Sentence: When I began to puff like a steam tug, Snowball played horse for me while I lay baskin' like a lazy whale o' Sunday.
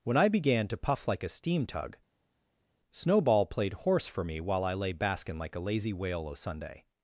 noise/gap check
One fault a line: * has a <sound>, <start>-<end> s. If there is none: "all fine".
all fine